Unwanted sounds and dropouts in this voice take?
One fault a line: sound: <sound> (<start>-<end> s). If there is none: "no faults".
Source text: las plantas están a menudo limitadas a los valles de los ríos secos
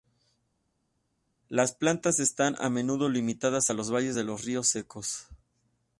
no faults